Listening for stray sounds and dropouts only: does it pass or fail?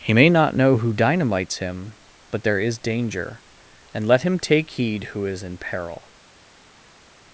pass